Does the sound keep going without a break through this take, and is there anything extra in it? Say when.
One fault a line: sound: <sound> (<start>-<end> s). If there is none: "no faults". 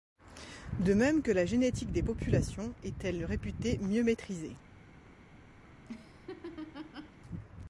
sound: laugh (5.6-7.2 s)